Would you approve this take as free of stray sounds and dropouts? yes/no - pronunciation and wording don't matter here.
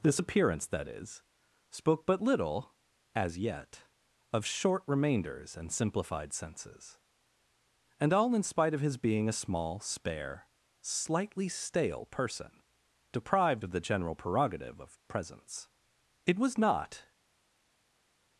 yes